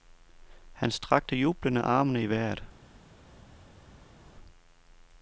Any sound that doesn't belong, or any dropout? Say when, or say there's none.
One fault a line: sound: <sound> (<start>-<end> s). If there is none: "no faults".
no faults